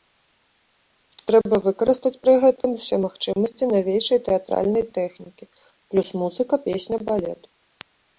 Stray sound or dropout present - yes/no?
yes